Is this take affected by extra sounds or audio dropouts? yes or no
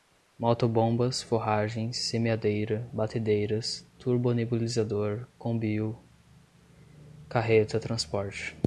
no